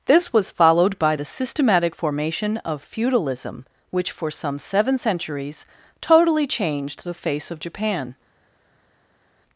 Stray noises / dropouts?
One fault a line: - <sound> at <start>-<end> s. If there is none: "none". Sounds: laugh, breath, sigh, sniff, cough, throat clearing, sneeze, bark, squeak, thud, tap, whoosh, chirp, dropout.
none